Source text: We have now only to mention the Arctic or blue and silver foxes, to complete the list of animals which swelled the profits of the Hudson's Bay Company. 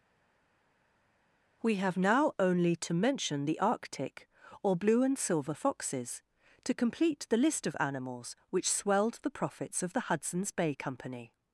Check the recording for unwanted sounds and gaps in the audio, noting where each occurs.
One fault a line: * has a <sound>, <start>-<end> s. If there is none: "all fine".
all fine